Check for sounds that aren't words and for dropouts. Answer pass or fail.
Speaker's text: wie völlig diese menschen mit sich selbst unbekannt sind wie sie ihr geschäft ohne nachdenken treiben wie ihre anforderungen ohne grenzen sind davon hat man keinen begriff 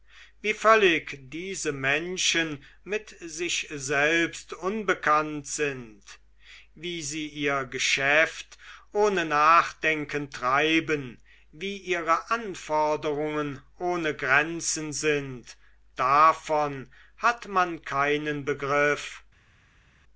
pass